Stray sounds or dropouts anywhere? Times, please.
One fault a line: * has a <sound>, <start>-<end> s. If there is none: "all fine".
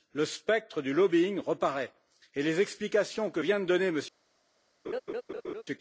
* has a laugh, 4.8-5.6 s